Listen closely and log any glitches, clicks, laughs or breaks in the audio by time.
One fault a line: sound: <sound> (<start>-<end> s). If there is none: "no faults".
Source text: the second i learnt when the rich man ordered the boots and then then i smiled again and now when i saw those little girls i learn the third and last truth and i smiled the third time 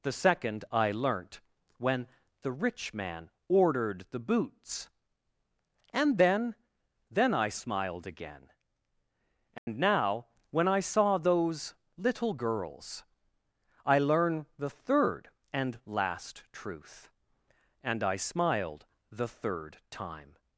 sound: dropout (9.6-9.7 s)